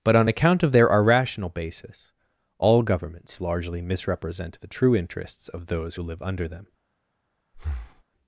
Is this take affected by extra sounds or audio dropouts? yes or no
yes